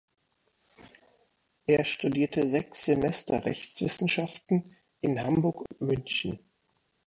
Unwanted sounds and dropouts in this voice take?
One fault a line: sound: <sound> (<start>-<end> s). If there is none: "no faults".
sound: dropout (5.7-5.7 s)